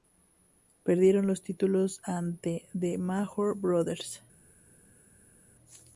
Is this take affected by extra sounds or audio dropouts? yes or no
no